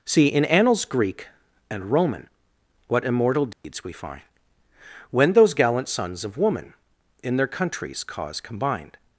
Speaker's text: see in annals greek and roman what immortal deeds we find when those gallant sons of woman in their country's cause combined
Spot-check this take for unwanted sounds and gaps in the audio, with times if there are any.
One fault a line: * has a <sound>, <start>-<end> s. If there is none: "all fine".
* has a dropout, 3.5-3.6 s